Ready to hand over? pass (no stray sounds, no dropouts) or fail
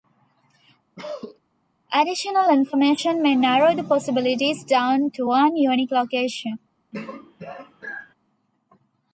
fail